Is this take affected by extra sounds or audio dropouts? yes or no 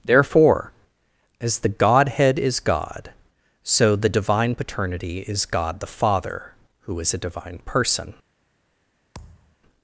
yes